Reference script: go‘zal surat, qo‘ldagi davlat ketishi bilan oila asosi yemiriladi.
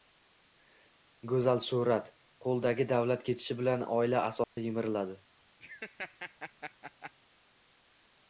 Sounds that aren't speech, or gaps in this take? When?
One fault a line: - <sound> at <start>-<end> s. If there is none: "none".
- dropout at 4.4-4.6 s
- laugh at 5.6-7.1 s